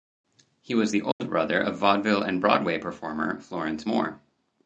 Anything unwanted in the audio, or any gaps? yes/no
yes